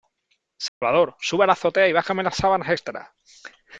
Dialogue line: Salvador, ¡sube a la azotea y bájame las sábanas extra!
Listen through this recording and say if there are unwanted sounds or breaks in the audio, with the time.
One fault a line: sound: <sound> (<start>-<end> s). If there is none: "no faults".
sound: dropout (0.7-0.8 s)